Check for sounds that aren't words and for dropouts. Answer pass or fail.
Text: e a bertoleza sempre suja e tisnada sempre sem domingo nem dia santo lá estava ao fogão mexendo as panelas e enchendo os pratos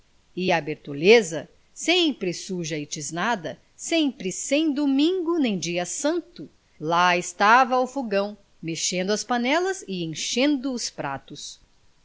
pass